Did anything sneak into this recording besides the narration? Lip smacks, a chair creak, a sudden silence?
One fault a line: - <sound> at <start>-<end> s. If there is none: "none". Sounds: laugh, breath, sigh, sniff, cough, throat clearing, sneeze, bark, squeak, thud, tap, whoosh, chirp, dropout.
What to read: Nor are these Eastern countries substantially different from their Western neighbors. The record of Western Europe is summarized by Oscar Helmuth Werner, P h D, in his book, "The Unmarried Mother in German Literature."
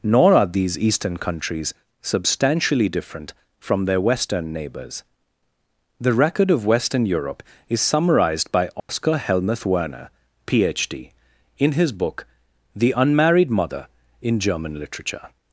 - dropout at 8.8-8.9 s